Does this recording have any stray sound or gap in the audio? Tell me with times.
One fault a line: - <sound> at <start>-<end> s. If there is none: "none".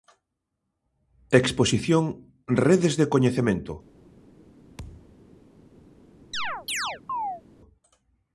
- thud at 4.8-5.2 s
- chirp at 6.3-7.4 s